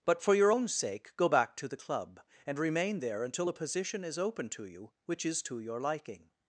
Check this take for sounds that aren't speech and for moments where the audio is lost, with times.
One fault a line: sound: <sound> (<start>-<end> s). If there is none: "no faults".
no faults